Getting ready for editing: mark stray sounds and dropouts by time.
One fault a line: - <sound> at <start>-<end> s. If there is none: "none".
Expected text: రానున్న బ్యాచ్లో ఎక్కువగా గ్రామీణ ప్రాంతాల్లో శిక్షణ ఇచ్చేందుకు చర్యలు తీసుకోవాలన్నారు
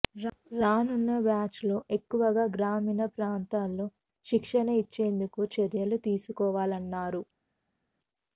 none